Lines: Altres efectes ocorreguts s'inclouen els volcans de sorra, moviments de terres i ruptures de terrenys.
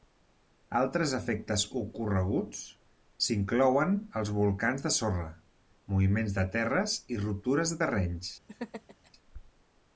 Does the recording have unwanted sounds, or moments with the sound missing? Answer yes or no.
yes